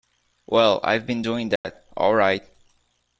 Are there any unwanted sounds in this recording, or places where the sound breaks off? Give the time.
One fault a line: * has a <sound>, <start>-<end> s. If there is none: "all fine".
* has a dropout, 1.6-1.6 s